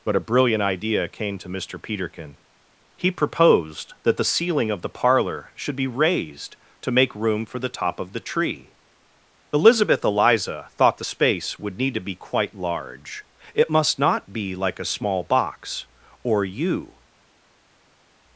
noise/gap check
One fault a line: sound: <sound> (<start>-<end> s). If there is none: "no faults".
no faults